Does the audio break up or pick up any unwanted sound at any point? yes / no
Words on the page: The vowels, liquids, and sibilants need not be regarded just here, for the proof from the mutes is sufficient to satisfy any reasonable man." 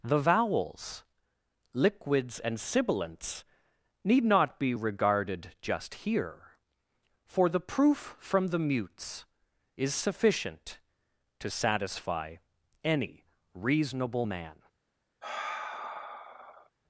yes